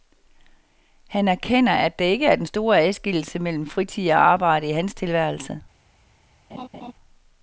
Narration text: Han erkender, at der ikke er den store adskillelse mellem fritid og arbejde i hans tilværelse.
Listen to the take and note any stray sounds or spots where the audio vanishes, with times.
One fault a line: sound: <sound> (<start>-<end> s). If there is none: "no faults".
sound: laugh (6.5-6.9 s)